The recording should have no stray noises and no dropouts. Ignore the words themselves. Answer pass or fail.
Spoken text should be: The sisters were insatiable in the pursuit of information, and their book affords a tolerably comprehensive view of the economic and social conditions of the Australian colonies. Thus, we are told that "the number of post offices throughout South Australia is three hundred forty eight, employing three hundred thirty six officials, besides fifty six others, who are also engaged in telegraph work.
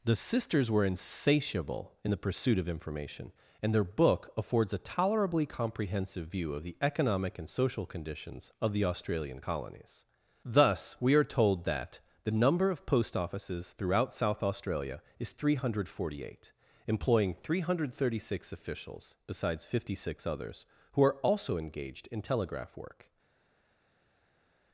pass